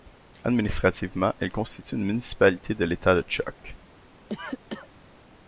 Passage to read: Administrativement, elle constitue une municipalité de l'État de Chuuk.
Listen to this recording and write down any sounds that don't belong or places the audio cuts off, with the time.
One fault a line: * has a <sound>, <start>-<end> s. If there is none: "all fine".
* has a cough, 4.3-4.9 s